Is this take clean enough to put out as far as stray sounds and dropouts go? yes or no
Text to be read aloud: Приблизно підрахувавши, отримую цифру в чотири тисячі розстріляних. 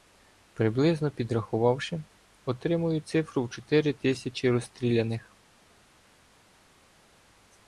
yes